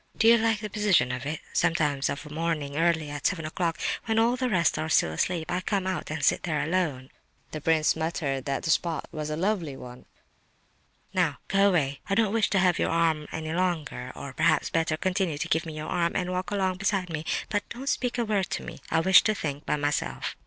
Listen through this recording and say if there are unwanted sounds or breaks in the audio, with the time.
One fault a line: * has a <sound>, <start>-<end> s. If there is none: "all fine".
all fine